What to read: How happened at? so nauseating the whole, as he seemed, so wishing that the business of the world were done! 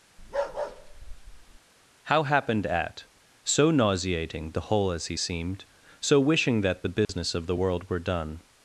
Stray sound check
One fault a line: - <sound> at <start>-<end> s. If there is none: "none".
- bark at 0.2-1.6 s
- dropout at 7.0-7.1 s